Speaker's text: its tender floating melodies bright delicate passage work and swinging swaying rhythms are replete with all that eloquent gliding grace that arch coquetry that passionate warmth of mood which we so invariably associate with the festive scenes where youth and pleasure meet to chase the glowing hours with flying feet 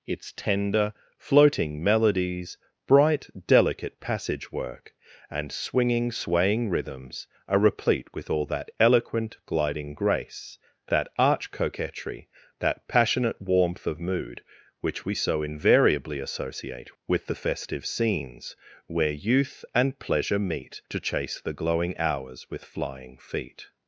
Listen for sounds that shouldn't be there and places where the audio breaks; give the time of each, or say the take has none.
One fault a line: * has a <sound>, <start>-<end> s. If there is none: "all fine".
all fine